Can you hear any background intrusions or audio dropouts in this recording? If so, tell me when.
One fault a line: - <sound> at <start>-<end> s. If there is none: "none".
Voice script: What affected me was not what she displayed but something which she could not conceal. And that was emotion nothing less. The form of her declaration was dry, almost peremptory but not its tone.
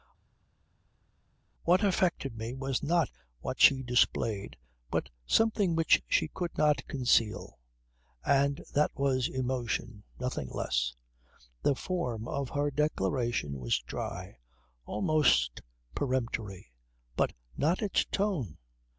none